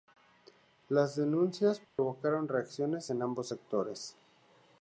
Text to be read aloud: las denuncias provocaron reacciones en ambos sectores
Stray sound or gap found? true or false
true